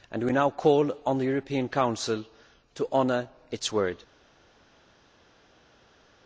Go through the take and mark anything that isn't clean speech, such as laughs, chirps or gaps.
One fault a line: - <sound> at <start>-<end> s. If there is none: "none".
none